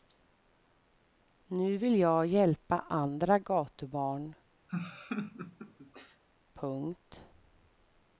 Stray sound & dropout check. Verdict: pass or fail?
fail